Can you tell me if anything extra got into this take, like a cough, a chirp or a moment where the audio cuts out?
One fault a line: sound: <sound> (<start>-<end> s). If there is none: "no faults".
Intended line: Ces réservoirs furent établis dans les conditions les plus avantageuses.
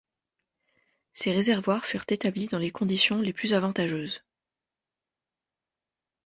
no faults